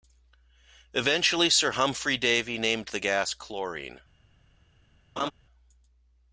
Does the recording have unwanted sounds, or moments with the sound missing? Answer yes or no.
yes